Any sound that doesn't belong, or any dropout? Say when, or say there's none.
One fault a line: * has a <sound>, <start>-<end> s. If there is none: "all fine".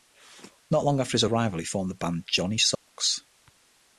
* has a dropout, 2.8-2.9 s